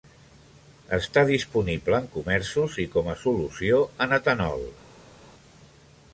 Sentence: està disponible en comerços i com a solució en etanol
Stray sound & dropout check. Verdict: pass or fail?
pass